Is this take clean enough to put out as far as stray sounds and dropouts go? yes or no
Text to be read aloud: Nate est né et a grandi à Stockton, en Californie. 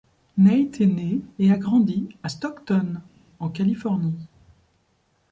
yes